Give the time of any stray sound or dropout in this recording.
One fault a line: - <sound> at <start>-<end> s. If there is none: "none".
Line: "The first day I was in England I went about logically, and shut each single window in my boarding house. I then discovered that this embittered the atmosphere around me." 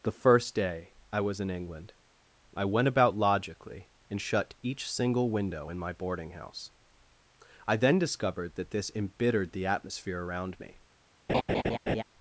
- laugh at 11.3-12.0 s